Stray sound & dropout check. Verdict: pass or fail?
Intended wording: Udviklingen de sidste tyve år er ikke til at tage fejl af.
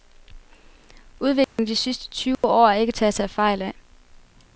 fail